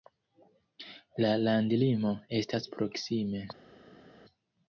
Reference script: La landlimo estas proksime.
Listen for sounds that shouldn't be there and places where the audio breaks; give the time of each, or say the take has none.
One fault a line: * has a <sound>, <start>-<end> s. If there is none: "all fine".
all fine